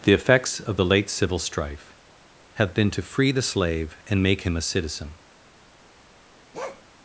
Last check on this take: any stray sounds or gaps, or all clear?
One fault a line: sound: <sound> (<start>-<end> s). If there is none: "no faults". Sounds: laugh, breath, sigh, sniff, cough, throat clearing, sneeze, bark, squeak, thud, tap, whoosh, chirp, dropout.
sound: bark (6.5-6.8 s)